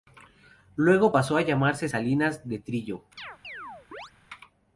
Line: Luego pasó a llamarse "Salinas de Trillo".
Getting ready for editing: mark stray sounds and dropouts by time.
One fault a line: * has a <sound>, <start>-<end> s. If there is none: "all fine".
* has a chirp, 3.2-4.1 s